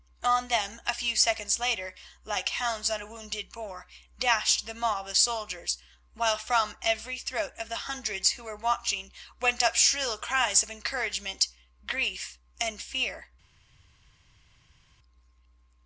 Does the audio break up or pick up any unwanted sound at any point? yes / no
no